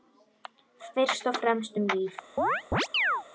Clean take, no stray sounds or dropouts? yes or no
no